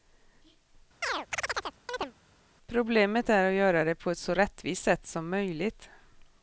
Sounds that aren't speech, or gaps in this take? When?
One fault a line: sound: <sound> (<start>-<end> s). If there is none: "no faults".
sound: chirp (1.0-2.1 s)